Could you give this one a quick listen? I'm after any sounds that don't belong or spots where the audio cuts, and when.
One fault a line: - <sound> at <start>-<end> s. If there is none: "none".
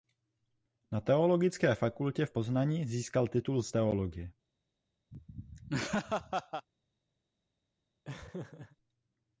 - laugh at 5.1-6.7 s
- laugh at 8.0-8.8 s